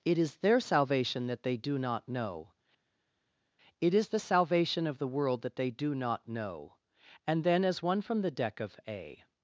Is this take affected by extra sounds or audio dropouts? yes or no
no